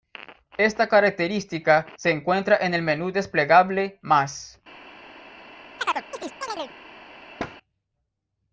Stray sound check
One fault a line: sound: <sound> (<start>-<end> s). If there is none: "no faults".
sound: chirp (5.8-6.7 s)
sound: thud (7.4-7.6 s)